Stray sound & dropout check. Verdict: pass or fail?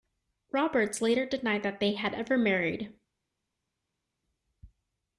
pass